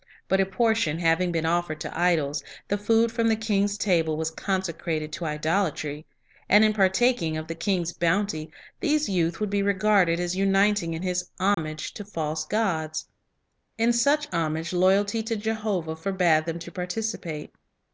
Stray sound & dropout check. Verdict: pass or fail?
fail